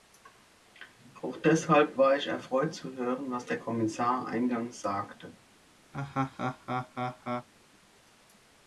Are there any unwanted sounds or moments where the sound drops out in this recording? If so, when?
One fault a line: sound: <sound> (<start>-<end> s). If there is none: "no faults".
sound: laugh (5.9-7.5 s)